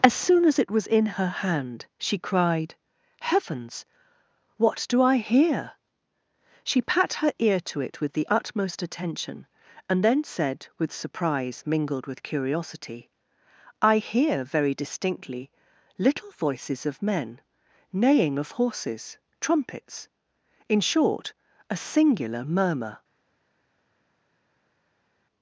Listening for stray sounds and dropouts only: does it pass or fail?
pass